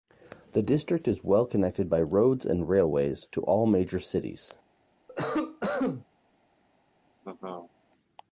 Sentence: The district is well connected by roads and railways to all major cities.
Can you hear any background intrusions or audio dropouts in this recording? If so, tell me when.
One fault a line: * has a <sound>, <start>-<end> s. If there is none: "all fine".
* has a cough, 5.1-6.0 s
* has a laugh, 7.2-7.7 s